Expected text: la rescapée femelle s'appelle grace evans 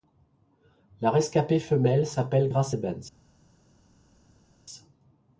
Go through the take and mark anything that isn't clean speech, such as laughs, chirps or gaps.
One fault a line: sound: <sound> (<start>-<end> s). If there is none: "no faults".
no faults